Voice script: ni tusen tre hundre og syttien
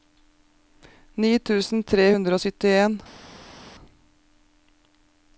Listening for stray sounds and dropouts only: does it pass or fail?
pass